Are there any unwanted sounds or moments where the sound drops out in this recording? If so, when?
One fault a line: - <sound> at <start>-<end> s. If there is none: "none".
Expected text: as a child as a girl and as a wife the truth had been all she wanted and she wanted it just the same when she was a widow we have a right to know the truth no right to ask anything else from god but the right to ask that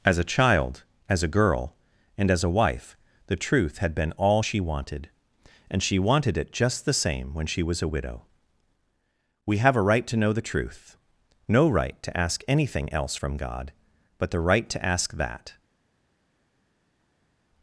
none